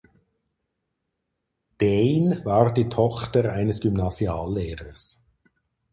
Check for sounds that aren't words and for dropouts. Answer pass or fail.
pass